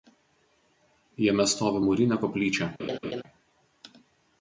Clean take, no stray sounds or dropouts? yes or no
no